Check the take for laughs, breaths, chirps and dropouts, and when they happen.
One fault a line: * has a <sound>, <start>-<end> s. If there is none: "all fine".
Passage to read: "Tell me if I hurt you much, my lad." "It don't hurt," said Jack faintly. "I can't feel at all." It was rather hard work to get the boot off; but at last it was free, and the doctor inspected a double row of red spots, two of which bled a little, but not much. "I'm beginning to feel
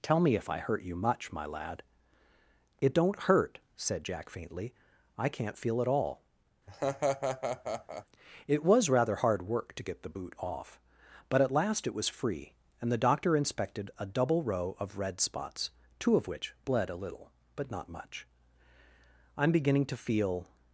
* has a laugh, 6.7-8.1 s